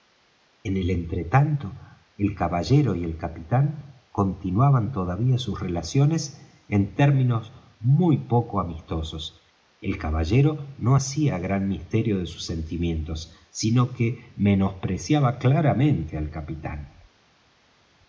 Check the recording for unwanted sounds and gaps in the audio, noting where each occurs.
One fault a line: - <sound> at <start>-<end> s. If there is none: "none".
none